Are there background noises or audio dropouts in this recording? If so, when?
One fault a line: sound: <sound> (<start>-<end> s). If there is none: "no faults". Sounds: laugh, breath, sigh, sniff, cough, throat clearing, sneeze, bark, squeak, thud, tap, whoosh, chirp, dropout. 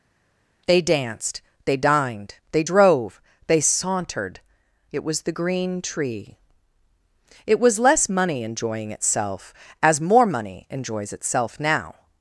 no faults